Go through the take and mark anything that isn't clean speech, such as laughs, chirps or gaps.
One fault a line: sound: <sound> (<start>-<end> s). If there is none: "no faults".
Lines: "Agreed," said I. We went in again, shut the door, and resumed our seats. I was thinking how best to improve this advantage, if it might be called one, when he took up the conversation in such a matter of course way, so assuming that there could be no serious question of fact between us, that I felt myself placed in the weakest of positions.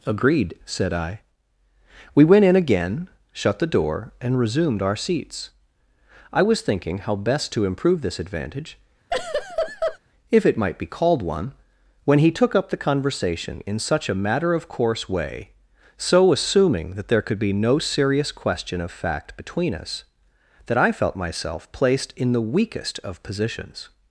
sound: laugh (9.1-10.0 s)